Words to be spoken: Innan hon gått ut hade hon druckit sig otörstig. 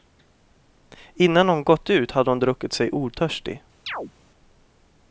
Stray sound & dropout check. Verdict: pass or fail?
fail